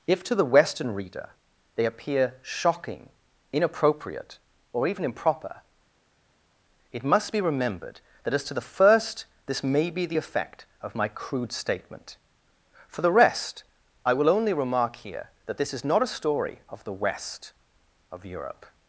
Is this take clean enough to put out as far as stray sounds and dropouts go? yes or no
yes